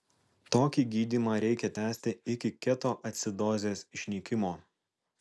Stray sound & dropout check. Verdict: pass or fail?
pass